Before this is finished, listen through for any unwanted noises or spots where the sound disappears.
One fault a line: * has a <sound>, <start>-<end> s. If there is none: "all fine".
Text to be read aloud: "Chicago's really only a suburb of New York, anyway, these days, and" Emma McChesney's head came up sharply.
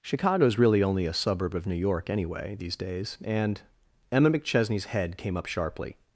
all fine